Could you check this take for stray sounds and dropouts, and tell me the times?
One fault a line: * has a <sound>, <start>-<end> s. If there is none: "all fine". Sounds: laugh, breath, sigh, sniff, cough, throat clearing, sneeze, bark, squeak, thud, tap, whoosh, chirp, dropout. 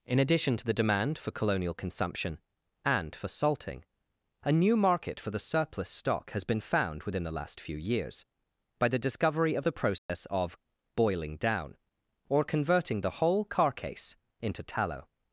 * has a dropout, 10.0-10.1 s